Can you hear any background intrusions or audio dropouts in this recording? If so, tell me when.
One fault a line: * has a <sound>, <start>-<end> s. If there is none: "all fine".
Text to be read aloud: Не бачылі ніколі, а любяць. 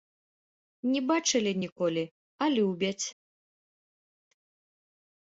all fine